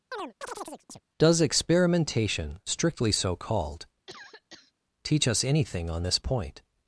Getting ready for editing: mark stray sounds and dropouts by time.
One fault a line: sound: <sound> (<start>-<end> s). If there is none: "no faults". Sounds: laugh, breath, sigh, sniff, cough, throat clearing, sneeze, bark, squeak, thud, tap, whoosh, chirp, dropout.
sound: chirp (0.1-1.0 s)
sound: cough (4.1-4.7 s)